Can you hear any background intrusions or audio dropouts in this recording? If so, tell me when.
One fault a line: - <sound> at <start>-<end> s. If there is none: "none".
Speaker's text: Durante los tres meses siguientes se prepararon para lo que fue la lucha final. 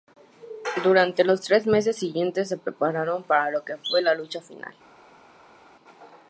none